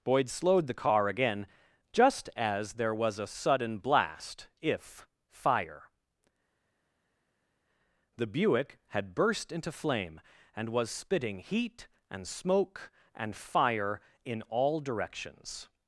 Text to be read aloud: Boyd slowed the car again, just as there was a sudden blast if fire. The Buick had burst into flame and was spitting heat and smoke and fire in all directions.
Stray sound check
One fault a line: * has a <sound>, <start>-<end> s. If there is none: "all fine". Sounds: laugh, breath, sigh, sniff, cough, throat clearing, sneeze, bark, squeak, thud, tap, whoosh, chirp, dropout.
all fine